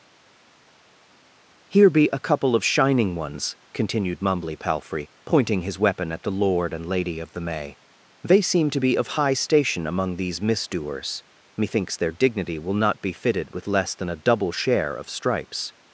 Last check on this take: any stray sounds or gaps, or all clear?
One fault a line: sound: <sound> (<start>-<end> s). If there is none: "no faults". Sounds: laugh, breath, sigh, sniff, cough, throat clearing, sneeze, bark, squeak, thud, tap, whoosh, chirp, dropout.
no faults